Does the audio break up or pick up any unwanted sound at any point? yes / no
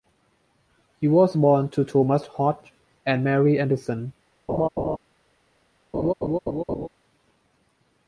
yes